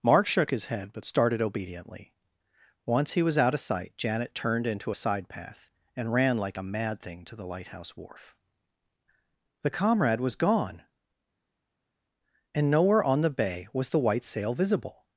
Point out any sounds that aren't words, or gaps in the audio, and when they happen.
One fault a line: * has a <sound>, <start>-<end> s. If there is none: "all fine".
all fine